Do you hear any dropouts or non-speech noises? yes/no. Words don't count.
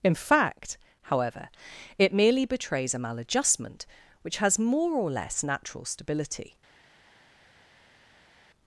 no